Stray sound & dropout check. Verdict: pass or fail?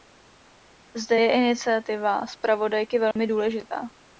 fail